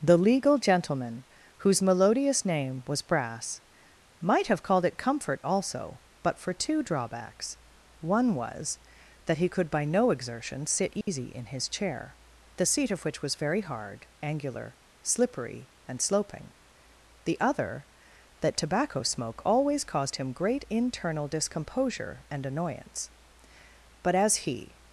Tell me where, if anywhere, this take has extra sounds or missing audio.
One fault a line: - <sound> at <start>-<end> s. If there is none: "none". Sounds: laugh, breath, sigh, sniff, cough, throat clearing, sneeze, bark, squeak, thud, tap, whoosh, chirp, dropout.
- dropout at 11.0-11.1 s